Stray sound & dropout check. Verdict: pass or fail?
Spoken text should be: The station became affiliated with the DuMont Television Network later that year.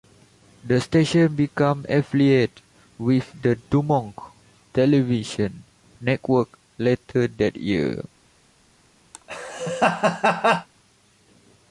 fail